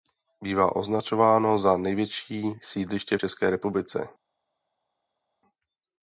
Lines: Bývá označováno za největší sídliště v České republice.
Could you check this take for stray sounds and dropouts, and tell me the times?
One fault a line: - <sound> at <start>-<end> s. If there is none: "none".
none